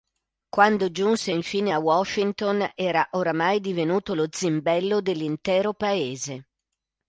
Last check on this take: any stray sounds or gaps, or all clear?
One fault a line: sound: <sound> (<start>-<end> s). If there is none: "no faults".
no faults